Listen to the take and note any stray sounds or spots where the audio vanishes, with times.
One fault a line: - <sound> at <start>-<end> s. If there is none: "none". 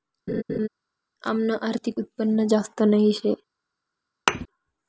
- laugh at 0.3-0.7 s
- thud at 4.3-4.5 s